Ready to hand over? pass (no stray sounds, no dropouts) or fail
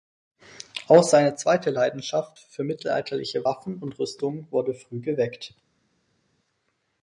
pass